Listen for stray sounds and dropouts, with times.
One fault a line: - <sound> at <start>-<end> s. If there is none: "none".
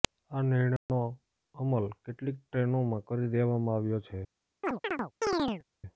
- dropout at 0.8-0.9 s
- chirp at 4.6-5.6 s